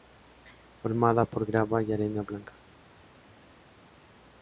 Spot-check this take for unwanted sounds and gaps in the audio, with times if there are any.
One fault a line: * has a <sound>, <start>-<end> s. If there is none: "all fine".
all fine